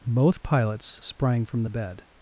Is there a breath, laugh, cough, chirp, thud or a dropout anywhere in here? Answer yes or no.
no